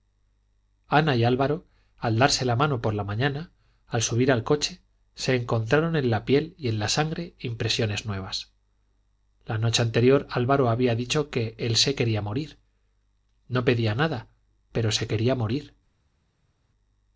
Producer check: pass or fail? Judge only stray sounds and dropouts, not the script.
pass